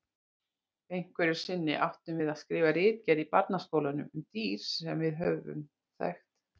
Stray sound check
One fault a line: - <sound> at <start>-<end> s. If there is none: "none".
none